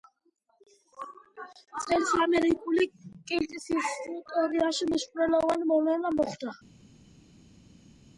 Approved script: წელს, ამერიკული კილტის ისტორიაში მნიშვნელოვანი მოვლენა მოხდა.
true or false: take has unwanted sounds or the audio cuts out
false